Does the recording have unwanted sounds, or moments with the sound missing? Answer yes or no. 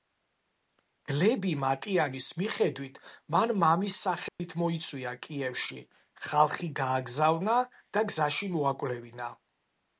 yes